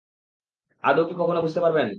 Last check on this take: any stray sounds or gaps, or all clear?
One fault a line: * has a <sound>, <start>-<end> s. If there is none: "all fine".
all fine